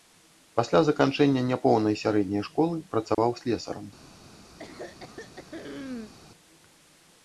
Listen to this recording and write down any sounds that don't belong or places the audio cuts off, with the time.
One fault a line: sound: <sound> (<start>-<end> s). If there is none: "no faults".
sound: dropout (3.1-3.2 s)
sound: throat clearing (4.6-6.1 s)